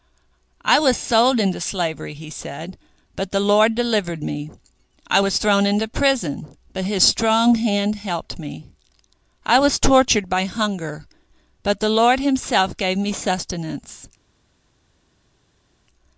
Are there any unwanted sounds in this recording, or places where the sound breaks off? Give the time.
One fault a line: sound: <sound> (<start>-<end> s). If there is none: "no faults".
no faults